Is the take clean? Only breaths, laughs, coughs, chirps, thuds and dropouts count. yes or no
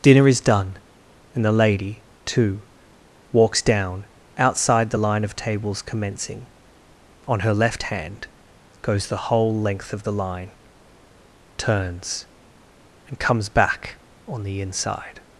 yes